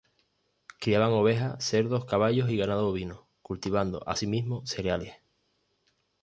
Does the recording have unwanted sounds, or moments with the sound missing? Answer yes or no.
no